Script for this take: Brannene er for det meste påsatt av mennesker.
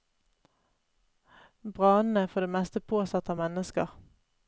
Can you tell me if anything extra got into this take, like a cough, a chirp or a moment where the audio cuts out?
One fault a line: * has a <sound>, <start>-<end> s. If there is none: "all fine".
all fine